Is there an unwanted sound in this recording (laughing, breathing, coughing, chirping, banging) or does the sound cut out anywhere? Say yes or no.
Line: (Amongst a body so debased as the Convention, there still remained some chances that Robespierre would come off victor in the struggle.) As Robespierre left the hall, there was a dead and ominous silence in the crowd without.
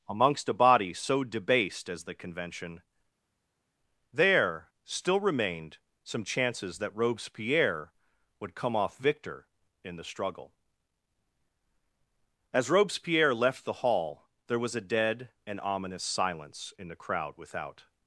no